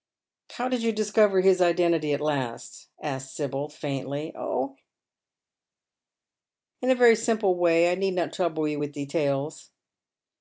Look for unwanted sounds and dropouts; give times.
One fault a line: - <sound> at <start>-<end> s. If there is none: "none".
none